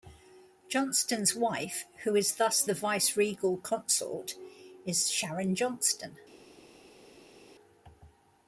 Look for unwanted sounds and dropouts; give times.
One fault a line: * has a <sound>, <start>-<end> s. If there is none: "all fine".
all fine